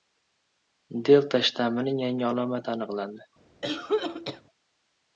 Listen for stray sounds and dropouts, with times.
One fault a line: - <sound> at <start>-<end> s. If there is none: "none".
- cough at 3.6-4.4 s